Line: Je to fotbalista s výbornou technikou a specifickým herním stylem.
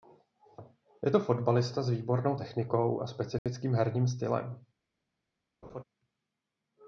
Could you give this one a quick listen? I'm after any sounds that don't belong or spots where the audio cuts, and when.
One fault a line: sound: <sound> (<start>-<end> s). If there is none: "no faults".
sound: dropout (3.4-3.5 s)
sound: laugh (5.6-5.8 s)